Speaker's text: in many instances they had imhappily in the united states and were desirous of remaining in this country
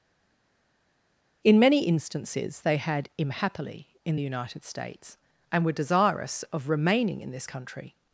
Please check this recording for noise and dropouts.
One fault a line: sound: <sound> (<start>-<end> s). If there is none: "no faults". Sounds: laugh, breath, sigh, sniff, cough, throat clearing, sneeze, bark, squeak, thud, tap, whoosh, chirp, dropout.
no faults